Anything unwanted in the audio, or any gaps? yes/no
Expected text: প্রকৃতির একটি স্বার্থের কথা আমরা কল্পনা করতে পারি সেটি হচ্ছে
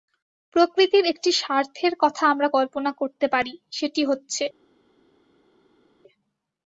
no